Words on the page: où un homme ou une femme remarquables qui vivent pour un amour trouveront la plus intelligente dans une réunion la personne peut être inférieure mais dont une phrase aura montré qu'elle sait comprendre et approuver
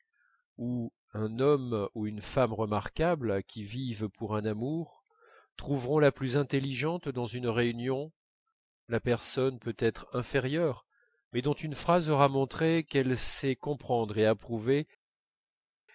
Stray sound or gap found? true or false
false